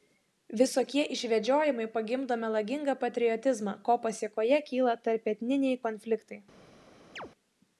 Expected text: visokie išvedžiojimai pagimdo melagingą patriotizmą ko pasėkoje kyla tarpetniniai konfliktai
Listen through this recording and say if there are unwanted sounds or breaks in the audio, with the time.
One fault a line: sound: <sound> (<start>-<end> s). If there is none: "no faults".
sound: chirp (7.2-7.3 s)